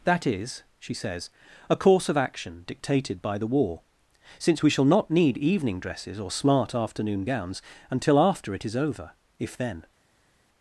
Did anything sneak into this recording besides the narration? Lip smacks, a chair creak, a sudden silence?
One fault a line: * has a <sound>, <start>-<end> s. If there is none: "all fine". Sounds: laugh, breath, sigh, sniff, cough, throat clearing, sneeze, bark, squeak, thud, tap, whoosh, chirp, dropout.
all fine